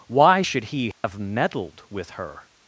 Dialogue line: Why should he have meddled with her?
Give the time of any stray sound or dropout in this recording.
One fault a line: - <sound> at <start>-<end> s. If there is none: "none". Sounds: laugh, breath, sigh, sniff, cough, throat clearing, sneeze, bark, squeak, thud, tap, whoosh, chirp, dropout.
- dropout at 0.9-1.0 s